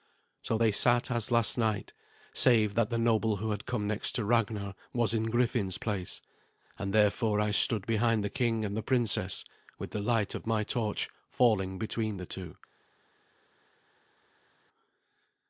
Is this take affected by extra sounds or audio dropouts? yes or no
no